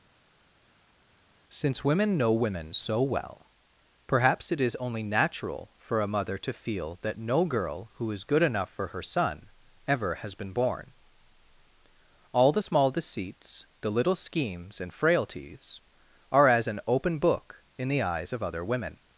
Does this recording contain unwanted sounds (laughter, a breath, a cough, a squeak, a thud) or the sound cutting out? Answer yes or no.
no